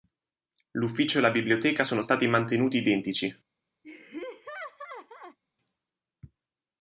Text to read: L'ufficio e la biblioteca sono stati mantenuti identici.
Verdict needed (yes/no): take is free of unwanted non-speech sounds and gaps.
no